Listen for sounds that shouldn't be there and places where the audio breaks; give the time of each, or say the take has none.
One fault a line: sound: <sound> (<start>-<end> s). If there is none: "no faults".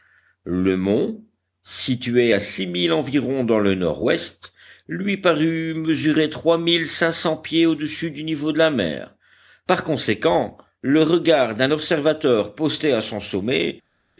no faults